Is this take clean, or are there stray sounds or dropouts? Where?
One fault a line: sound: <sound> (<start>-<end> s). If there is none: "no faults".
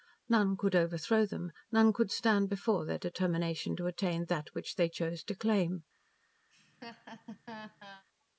sound: laugh (6.5-8.0 s)